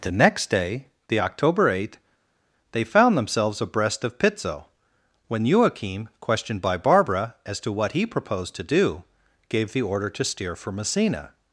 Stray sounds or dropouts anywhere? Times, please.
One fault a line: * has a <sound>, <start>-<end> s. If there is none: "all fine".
all fine